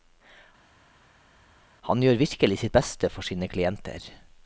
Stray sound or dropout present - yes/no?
no